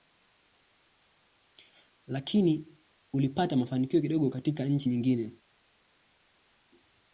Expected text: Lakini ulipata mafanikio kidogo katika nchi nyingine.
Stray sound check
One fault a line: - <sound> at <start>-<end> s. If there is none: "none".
none